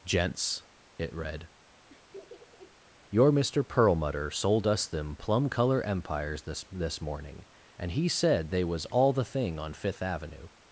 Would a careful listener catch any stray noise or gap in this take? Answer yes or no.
yes